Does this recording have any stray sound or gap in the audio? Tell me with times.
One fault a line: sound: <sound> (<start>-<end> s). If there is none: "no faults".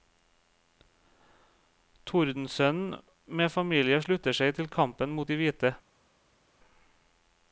no faults